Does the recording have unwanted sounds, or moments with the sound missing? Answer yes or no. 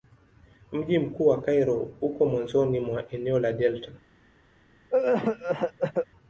yes